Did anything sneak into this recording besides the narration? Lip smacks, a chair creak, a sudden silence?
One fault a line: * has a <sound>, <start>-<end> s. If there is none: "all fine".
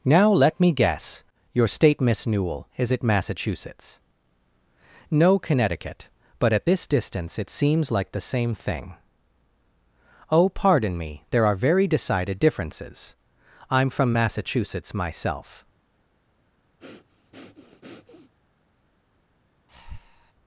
* has a breath, 16.8-18.3 s
* has a breath, 19.7-20.3 s